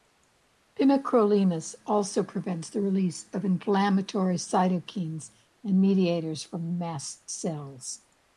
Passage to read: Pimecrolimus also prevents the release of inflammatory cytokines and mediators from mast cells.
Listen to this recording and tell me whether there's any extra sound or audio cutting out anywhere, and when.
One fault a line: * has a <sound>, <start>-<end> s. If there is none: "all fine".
all fine